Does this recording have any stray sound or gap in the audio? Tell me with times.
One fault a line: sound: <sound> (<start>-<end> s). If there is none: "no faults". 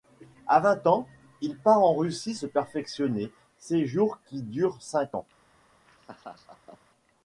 sound: laugh (5.9-6.8 s)